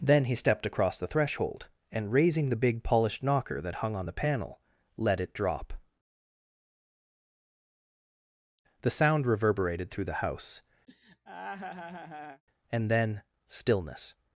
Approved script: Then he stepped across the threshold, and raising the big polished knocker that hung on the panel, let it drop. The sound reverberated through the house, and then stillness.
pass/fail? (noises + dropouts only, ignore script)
fail